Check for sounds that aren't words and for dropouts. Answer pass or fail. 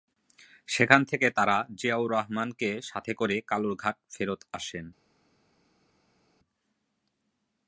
pass